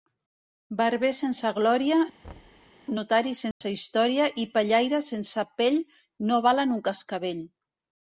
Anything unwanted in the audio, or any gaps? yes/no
yes